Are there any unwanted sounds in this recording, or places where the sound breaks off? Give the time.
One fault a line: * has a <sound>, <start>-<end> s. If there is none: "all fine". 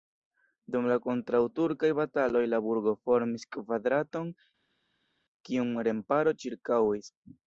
all fine